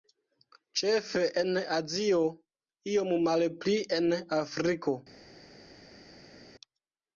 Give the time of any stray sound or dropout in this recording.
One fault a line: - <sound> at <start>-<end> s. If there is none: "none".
none